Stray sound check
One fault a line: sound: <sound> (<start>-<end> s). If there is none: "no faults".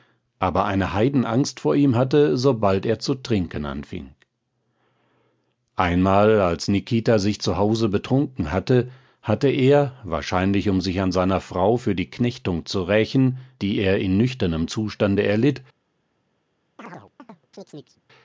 sound: chirp (16.8-18.0 s)